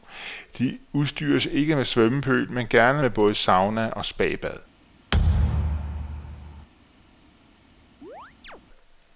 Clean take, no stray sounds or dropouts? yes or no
no